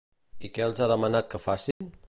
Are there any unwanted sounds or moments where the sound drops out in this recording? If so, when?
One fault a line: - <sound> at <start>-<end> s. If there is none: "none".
- dropout at 1.7-1.8 s